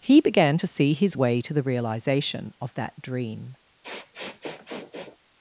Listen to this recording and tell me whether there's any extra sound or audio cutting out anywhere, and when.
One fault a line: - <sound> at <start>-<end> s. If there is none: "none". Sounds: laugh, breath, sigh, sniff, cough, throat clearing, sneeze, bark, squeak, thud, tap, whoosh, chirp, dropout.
- sniff at 3.8-5.2 s